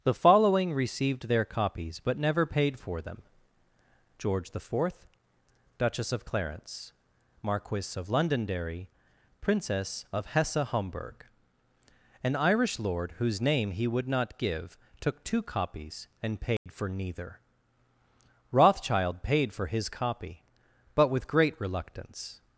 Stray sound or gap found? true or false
true